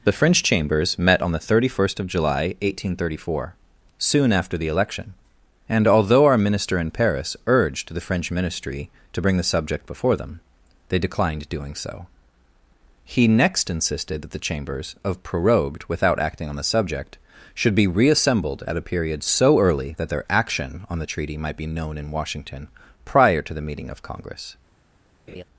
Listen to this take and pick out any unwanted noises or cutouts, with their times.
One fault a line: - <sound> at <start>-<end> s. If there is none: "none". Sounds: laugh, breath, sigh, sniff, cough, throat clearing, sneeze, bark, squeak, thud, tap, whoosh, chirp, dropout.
- laugh at 25.3-25.4 s